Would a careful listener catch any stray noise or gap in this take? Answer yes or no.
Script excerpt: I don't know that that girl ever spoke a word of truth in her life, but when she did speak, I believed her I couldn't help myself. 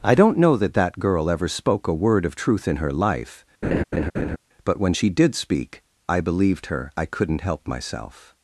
yes